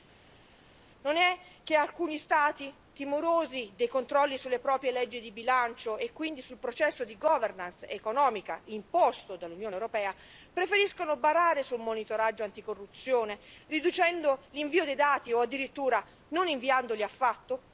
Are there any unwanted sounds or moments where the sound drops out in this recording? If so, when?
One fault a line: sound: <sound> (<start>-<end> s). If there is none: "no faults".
no faults